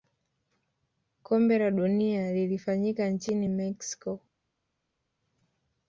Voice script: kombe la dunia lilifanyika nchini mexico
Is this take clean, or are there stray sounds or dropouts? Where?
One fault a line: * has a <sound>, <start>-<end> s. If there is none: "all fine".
all fine